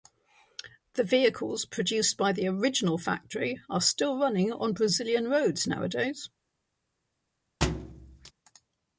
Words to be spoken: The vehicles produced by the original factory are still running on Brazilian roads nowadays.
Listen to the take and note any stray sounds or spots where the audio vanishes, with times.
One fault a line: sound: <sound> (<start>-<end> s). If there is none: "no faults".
sound: thud (7.6-8.3 s)